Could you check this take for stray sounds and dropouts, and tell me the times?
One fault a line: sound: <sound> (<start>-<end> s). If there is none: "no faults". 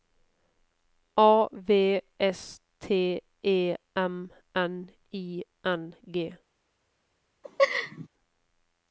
sound: laugh (7.4-8.1 s)